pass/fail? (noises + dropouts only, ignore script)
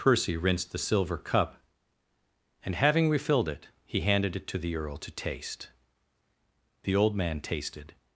pass